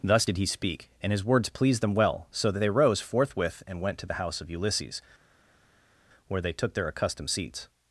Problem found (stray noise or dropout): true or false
false